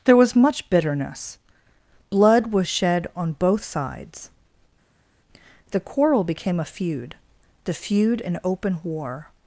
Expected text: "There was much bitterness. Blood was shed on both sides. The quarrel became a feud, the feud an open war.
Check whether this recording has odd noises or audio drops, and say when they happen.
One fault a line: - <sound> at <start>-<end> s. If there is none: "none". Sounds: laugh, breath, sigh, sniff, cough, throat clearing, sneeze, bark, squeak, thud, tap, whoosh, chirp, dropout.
none